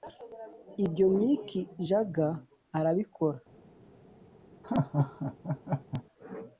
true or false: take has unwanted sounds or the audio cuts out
true